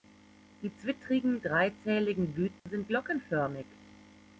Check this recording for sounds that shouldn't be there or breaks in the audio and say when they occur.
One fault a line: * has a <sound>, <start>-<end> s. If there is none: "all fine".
* has a dropout, 2.6-2.7 s